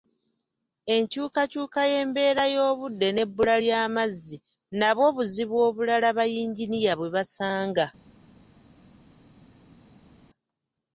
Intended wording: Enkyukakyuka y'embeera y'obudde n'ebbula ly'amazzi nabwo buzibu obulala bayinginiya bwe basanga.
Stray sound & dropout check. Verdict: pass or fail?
pass